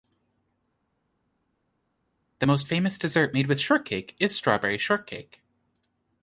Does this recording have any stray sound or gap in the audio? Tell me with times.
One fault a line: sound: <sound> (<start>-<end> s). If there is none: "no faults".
no faults